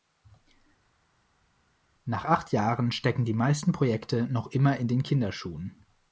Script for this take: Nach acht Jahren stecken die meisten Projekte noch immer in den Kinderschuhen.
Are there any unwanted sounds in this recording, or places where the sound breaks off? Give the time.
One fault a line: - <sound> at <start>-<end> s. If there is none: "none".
none